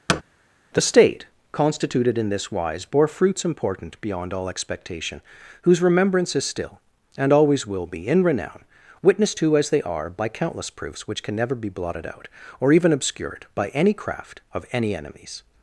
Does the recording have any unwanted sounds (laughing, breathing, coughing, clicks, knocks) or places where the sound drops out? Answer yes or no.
yes